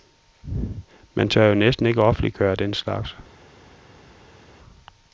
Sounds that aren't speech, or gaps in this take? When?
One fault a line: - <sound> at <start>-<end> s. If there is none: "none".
none